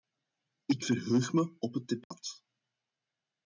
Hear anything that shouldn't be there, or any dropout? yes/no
yes